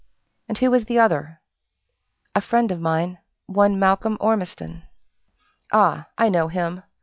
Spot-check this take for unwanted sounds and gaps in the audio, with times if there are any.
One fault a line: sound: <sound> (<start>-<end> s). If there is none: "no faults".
no faults